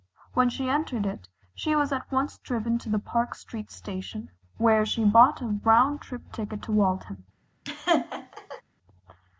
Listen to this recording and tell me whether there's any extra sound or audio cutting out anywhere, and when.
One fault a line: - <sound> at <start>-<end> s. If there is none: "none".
- laugh at 7.6-8.6 s